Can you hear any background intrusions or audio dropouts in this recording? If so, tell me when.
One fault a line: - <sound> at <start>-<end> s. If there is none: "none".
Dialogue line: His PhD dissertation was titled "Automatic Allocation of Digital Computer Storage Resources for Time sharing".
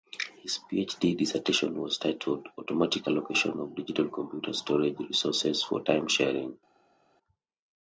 none